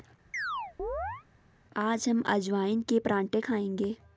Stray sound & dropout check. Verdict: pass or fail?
fail